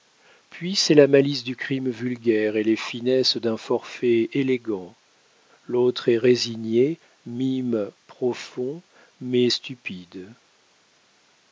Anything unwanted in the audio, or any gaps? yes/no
no